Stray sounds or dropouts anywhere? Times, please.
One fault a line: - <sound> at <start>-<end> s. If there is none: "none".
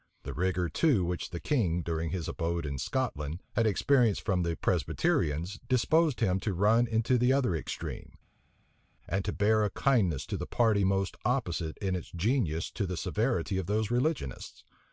none